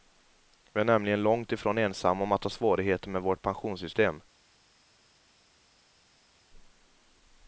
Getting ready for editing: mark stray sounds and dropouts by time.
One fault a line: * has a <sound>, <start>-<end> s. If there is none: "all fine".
all fine